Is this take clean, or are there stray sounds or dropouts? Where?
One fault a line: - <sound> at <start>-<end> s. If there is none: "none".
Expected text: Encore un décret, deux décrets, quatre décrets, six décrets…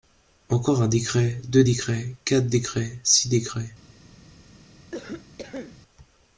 - cough at 4.9-5.8 s